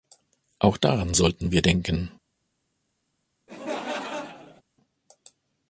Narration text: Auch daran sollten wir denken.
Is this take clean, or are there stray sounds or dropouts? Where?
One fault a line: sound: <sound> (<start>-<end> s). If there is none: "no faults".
sound: laugh (3.5-4.6 s)